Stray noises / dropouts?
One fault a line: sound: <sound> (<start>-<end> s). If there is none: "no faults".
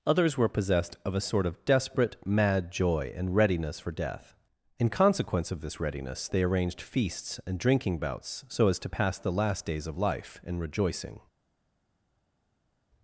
no faults